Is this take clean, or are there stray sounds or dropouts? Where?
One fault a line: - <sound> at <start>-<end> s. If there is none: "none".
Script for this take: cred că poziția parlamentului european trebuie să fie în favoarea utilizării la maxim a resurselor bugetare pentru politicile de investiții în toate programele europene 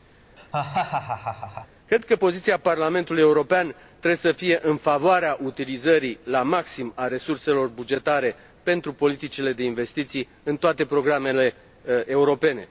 - laugh at 0.4-1.7 s